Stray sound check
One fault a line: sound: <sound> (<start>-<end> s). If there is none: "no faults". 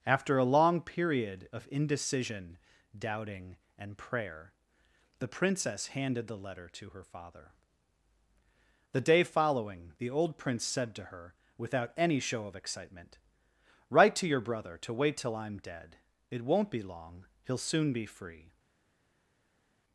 no faults